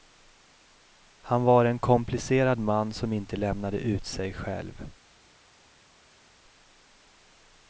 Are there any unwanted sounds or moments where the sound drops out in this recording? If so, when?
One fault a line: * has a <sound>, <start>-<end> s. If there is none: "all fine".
all fine